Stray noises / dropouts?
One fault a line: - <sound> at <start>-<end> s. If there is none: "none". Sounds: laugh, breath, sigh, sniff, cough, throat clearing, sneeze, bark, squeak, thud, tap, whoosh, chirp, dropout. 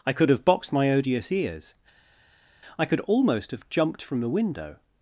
none